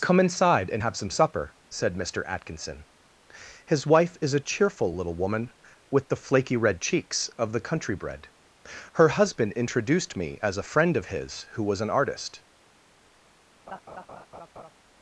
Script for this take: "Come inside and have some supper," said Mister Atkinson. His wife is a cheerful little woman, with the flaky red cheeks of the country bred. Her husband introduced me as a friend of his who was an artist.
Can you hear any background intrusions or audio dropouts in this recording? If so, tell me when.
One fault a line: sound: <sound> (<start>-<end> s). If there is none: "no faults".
sound: laugh (13.7-14.7 s)